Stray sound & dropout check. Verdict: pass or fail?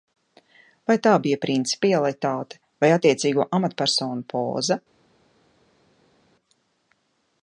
pass